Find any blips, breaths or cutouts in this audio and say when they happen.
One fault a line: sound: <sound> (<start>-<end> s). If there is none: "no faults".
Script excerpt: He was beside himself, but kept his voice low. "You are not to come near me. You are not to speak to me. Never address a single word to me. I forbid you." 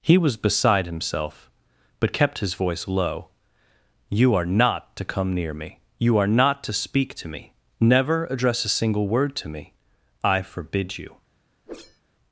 sound: whoosh (11.7-12.0 s)